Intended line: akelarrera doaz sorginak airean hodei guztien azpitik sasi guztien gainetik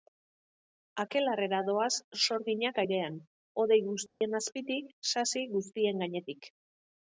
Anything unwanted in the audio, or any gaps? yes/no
yes